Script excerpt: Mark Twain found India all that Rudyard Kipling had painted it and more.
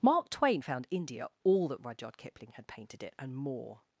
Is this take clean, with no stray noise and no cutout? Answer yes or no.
yes